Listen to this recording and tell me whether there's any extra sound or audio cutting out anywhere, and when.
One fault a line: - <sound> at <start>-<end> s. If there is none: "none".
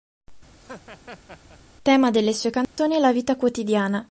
- laugh at 0.6-1.6 s
- dropout at 2.6-2.8 s